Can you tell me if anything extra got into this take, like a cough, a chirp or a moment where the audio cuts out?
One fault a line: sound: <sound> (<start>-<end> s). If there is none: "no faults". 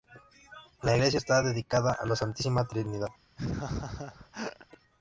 sound: laugh (3.4-4.7 s)